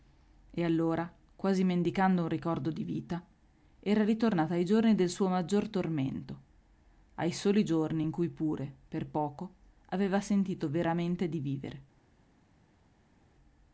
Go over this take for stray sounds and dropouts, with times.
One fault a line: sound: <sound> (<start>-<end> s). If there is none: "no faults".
no faults